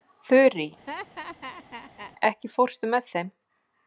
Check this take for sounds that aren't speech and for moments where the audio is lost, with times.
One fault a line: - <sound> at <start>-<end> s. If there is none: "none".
- laugh at 0.9-2.1 s